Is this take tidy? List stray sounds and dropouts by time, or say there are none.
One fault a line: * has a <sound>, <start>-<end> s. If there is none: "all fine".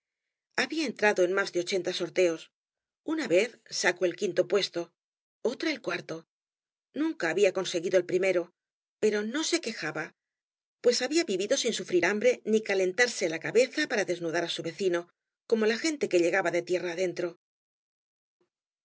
all fine